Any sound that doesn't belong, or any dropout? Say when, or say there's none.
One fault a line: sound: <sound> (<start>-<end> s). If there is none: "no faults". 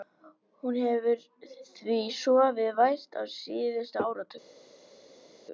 no faults